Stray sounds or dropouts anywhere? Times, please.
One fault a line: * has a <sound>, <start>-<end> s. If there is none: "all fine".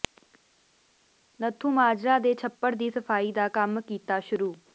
all fine